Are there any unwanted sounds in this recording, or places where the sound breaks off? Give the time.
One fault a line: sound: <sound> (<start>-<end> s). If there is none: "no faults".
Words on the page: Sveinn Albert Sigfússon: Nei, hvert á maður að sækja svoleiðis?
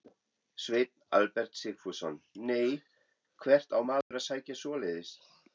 sound: dropout (4.0-4.1 s)